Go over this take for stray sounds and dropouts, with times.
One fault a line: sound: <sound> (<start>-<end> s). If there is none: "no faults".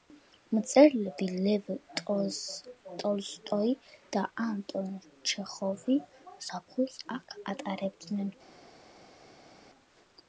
no faults